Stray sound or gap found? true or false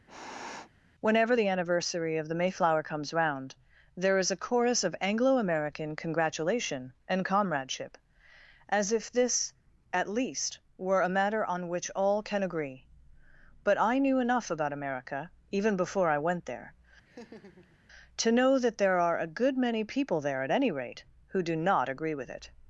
true